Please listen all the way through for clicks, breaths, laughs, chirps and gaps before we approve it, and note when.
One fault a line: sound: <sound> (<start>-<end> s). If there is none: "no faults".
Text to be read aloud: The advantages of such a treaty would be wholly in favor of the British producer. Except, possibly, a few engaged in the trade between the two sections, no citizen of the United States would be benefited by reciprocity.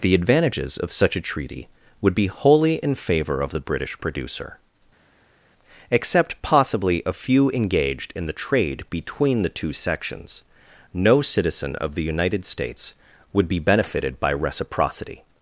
no faults